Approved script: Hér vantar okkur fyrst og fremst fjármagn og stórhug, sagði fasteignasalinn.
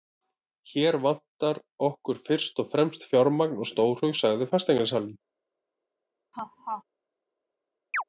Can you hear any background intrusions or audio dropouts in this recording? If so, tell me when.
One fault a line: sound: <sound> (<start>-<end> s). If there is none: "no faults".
sound: laugh (6.3-6.8 s)
sound: chirp (7.9-8.0 s)